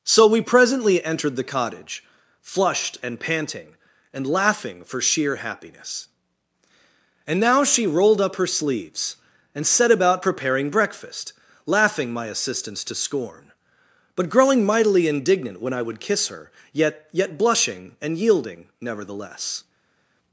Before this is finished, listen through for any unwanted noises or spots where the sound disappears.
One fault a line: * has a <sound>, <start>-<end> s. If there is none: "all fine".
all fine